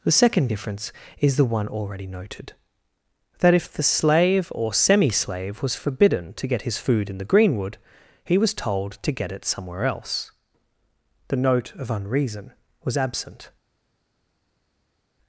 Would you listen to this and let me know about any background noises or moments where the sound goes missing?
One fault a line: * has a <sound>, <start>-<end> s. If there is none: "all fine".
all fine